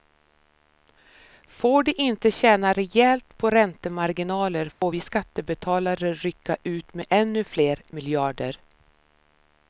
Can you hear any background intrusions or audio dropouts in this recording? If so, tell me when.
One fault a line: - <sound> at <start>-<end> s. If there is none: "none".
- dropout at 4.7-4.8 s